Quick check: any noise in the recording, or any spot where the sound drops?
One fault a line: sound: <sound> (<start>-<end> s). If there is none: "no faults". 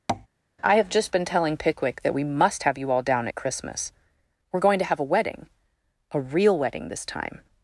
sound: tap (0.1-0.3 s)